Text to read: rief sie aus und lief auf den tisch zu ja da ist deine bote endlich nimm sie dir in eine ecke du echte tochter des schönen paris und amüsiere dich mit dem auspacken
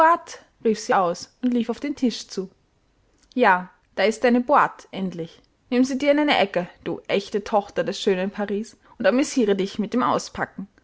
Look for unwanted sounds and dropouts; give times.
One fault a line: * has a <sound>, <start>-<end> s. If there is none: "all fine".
all fine